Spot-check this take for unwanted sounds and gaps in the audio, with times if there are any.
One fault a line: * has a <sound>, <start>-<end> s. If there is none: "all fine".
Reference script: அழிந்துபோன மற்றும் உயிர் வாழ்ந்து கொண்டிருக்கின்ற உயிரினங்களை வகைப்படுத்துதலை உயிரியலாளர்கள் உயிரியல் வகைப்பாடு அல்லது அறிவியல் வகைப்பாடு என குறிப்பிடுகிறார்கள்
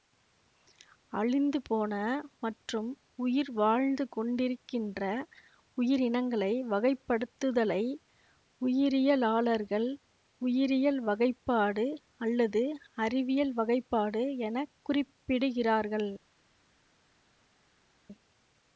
all fine